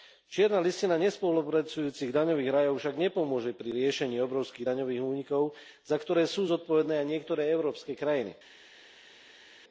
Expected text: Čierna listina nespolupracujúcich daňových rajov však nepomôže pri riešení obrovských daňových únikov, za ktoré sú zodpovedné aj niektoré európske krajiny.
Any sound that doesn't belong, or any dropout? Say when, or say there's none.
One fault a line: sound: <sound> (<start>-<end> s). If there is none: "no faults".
no faults